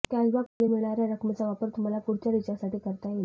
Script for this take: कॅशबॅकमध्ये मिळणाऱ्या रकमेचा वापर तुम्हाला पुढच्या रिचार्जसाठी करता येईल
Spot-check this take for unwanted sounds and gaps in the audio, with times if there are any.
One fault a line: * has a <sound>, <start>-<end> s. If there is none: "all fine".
* has a dropout, 0.5-0.6 s